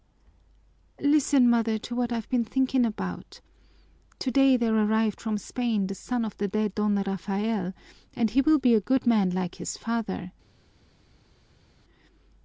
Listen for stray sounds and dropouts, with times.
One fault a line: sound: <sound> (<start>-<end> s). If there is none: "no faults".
no faults